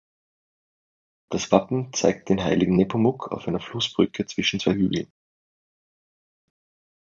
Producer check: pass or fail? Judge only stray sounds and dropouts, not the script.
pass